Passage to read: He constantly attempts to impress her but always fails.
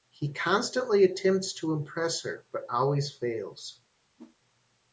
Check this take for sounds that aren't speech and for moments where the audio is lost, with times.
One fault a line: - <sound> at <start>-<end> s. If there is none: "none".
- whoosh at 4.2-4.4 s